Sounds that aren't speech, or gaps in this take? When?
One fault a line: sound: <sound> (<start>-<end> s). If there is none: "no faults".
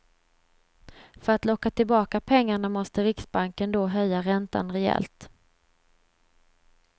no faults